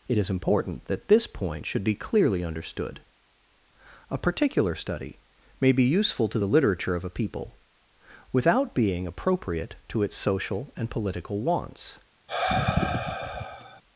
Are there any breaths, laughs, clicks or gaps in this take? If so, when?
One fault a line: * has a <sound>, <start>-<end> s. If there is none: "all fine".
* has a sigh, 12.3-13.8 s